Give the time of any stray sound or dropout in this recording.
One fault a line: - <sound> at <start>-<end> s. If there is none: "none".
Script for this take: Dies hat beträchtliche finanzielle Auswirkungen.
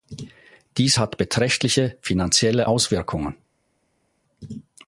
none